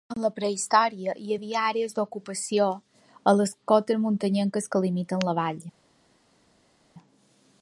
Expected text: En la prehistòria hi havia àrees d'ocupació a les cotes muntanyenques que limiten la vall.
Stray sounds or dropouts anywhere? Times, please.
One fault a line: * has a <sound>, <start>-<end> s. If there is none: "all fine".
all fine